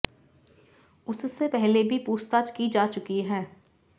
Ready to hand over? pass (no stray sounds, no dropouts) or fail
pass